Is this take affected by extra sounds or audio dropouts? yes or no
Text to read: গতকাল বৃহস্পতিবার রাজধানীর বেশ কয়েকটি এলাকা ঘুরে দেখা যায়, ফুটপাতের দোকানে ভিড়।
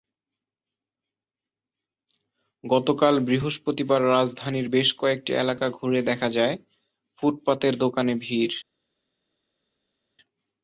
no